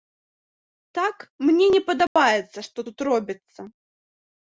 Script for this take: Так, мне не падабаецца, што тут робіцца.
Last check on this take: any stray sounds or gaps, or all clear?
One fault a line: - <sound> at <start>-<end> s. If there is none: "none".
- dropout at 2.1-2.2 s